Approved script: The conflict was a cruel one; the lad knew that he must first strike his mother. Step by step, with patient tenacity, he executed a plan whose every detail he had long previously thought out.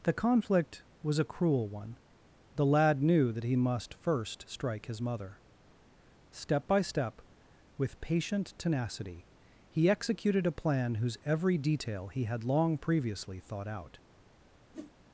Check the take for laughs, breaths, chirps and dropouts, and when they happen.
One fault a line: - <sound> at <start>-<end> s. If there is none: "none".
- whoosh at 14.7-14.9 s